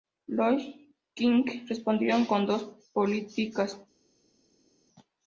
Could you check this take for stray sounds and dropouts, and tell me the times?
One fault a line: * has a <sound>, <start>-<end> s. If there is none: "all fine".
all fine